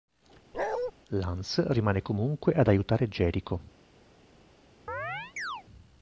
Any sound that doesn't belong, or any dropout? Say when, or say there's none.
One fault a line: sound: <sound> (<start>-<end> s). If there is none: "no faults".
sound: bark (0.5-0.9 s)
sound: chirp (4.9-5.6 s)